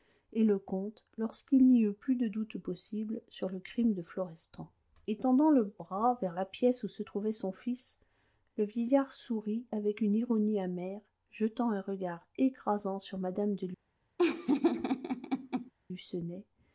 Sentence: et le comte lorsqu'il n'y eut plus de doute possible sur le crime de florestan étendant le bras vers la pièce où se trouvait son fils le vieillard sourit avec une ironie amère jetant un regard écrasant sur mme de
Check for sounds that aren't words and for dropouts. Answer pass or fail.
fail